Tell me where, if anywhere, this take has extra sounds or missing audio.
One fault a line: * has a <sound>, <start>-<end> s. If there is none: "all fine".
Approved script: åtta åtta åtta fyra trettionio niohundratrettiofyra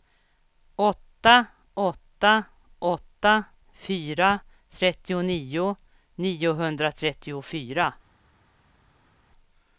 all fine